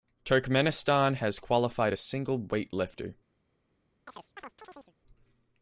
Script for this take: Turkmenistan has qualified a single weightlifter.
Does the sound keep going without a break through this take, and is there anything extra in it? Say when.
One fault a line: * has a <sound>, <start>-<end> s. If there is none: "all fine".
* has a chirp, 4.1-4.9 s